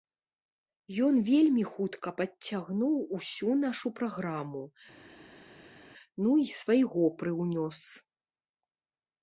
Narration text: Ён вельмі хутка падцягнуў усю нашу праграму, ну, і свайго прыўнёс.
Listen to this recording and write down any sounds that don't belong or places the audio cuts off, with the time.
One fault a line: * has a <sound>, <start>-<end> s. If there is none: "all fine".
all fine